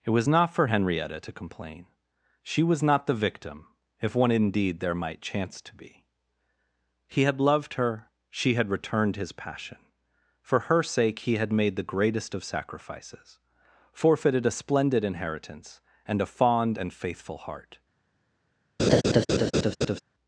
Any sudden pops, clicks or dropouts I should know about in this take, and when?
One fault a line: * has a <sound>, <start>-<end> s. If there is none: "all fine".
* has a laugh, 18.8-20.0 s